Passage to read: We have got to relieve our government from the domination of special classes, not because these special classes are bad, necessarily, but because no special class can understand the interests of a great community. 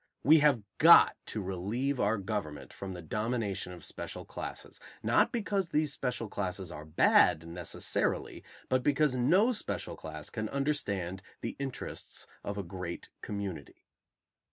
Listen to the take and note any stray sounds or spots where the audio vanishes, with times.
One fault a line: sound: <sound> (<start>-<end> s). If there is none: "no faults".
no faults